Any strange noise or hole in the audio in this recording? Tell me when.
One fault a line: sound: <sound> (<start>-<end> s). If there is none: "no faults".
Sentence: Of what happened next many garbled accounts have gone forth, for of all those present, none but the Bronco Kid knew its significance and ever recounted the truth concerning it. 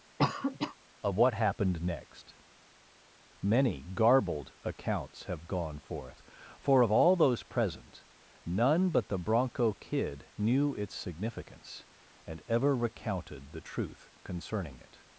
sound: cough (0.2-0.8 s)